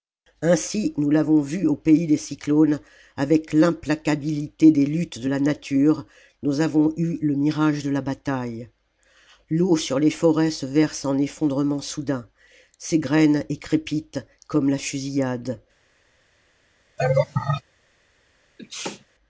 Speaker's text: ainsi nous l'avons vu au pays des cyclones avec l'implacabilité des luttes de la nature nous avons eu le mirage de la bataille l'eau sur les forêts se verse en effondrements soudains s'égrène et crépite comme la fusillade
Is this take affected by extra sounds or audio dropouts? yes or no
yes